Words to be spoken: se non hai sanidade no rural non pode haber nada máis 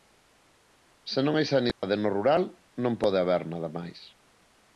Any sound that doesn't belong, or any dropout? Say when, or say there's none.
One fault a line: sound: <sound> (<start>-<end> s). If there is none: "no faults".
sound: dropout (1.7-1.8 s)